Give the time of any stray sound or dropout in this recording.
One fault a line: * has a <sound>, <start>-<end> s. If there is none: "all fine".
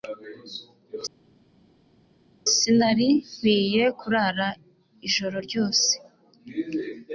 all fine